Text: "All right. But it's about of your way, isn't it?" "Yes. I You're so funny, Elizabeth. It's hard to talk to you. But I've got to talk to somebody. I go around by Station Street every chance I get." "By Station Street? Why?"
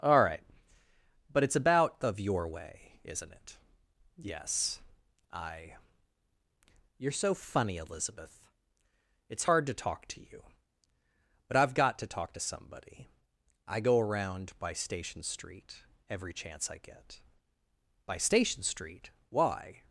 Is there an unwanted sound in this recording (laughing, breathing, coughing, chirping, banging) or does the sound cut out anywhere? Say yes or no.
no